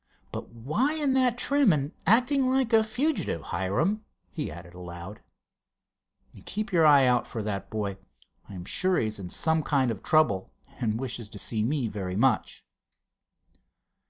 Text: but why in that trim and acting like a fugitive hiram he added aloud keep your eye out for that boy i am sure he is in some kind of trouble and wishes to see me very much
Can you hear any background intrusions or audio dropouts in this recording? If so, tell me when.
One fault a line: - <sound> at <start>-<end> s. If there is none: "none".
none